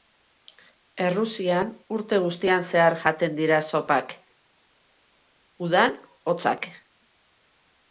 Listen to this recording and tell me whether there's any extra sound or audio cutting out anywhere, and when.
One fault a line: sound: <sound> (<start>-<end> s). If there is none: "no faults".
no faults